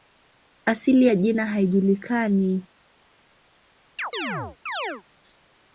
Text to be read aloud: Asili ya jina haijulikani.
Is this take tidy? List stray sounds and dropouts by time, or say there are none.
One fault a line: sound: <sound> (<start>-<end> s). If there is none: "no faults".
sound: chirp (4.0-5.0 s)